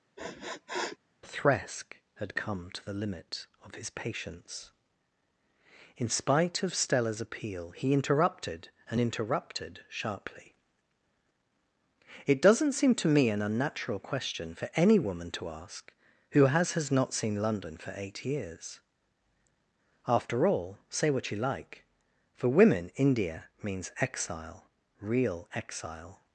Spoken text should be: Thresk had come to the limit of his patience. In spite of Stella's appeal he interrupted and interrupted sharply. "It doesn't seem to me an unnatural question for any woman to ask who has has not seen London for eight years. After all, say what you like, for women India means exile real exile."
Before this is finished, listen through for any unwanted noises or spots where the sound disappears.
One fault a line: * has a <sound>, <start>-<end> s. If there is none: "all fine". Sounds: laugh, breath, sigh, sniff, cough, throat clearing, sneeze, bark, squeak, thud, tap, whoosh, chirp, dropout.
* has a sniff, 0.2-1.0 s